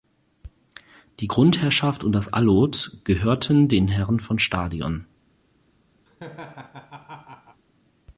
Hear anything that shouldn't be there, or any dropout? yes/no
yes